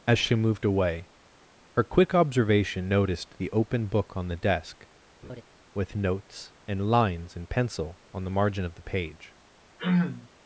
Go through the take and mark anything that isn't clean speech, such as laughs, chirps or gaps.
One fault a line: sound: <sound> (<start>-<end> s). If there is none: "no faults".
sound: laugh (5.2-5.4 s)
sound: throat clearing (9.8-10.3 s)